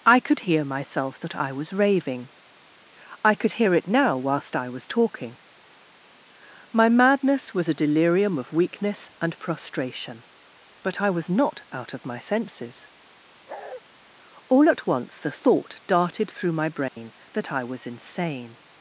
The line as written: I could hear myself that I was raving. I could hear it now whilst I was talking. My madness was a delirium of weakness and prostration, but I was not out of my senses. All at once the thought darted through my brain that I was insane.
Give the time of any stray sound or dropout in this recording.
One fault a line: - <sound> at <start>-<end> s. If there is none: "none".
- bark at 13.5-13.8 s
- dropout at 16.9-17.0 s